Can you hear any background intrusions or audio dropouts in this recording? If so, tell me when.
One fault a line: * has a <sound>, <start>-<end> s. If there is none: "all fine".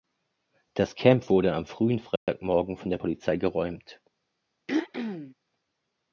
* has a dropout, 2.2-2.3 s
* has a throat clearing, 4.7-5.3 s